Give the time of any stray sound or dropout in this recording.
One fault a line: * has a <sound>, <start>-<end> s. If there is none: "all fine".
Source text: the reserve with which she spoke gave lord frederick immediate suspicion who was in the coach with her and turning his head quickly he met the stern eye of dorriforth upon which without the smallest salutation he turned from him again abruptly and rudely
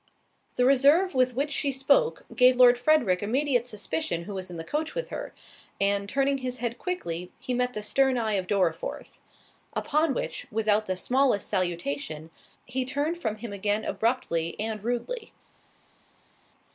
all fine